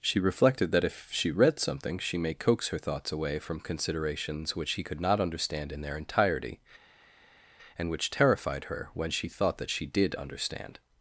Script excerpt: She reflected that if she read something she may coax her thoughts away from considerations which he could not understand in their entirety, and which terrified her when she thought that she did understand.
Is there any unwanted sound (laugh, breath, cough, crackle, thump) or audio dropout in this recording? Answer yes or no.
no